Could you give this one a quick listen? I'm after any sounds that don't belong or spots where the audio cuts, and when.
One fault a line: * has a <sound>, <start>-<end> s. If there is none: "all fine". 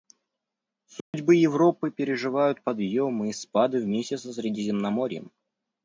* has a dropout, 1.0-1.1 s